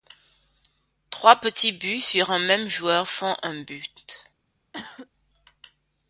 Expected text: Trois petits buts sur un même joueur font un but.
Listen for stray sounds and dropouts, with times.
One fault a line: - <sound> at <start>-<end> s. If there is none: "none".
- cough at 4.7-5.1 s